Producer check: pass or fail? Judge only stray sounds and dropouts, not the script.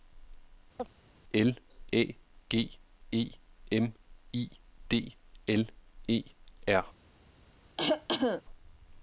fail